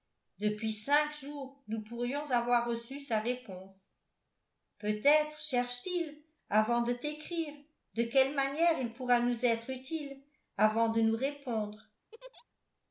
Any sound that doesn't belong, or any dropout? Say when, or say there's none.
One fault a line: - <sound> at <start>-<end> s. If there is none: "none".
- laugh at 12.1-12.4 s